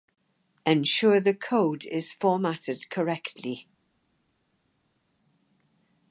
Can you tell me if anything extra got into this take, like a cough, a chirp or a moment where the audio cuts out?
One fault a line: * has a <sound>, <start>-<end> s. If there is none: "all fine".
all fine